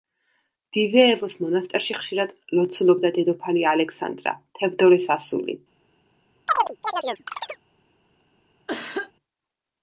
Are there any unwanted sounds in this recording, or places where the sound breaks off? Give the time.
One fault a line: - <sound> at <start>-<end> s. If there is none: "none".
- chirp at 6.5-7.6 s
- cough at 8.7-9.1 s